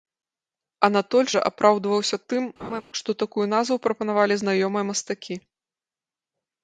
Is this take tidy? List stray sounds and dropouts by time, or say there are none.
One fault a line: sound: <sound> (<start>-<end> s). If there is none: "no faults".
sound: laugh (2.6-2.8 s)